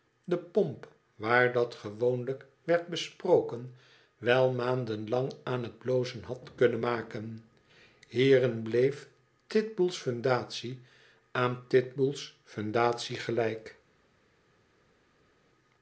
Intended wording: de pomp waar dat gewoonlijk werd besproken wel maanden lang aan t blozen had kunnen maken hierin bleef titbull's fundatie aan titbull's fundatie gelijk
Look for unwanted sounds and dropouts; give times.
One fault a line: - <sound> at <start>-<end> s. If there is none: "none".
none